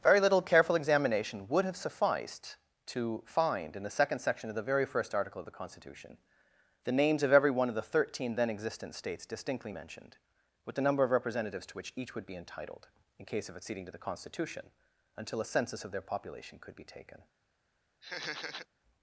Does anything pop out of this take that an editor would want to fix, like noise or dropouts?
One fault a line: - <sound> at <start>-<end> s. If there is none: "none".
- laugh at 18.0-18.7 s